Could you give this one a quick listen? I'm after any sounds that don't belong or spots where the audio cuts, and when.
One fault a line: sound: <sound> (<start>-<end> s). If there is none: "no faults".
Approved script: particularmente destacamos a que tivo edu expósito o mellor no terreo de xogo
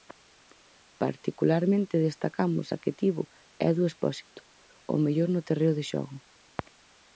no faults